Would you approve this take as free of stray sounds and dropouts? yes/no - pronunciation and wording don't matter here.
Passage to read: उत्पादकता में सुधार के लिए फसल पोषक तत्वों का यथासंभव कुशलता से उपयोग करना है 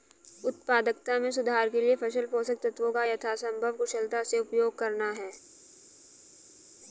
yes